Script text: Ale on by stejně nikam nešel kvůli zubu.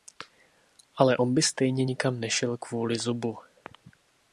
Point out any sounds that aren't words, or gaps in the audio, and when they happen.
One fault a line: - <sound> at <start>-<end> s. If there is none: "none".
none